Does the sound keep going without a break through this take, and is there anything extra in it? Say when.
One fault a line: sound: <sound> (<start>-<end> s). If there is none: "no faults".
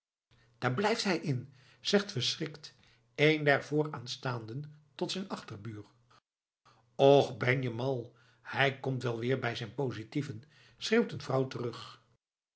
no faults